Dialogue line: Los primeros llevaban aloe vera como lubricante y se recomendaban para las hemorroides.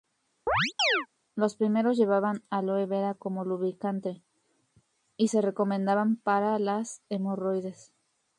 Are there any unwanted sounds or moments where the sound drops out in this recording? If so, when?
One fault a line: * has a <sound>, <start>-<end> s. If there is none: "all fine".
* has a chirp, 0.5-1.1 s